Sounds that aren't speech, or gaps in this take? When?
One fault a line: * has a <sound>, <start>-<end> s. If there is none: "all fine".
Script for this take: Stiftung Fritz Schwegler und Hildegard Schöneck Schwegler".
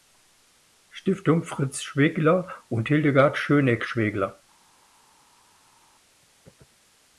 all fine